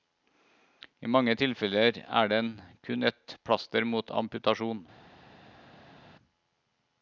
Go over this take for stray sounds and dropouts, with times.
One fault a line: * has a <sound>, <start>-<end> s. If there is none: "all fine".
all fine